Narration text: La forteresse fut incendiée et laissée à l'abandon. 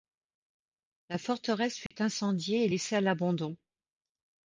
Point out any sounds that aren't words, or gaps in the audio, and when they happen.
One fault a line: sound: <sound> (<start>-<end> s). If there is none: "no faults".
sound: dropout (1.9-1.9 s)